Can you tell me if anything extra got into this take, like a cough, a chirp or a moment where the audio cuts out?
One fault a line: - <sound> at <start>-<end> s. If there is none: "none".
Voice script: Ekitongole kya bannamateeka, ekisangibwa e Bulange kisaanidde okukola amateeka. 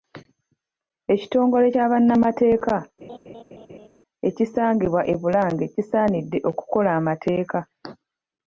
- laugh at 3.0-3.9 s